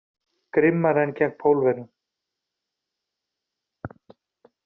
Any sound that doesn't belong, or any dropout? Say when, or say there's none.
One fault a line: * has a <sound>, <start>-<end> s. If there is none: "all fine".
all fine